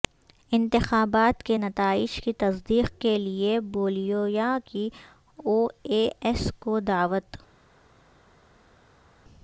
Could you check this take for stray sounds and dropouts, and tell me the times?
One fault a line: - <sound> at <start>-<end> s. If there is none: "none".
none